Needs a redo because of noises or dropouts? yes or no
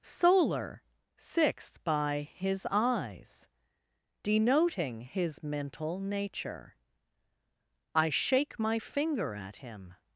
no